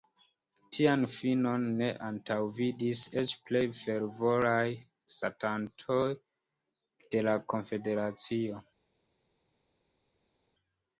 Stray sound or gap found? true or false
false